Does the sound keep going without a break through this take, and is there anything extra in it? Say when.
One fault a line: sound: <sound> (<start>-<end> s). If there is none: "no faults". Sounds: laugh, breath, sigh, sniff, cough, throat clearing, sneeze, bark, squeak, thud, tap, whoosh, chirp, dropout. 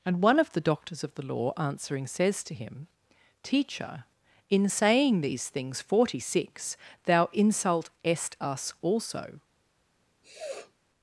sound: sniff (10.2-10.7 s)